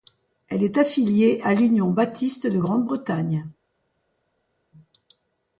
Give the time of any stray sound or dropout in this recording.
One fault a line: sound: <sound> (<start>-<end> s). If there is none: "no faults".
no faults